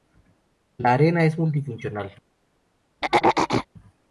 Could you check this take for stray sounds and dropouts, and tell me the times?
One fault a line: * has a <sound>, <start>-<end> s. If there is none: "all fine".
* has a throat clearing, 3.0-3.7 s